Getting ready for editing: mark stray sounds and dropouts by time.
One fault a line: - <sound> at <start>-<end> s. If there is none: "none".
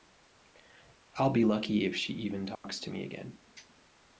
- dropout at 2.6-2.6 s